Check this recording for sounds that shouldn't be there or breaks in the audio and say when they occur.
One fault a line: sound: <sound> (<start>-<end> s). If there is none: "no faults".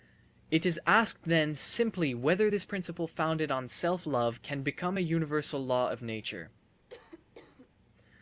sound: cough (6.9-7.7 s)